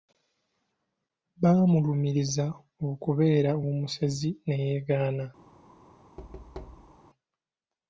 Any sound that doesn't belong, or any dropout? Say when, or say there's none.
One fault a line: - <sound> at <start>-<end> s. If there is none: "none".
- thud at 6.2-7.0 s